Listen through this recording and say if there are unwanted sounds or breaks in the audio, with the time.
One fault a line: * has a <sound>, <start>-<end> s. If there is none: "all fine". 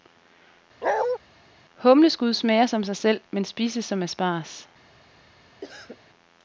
* has a bark, 0.8-1.2 s
* has a cough, 5.6-6.0 s